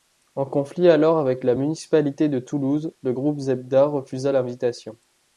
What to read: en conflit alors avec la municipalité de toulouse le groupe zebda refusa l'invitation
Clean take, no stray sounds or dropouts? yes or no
yes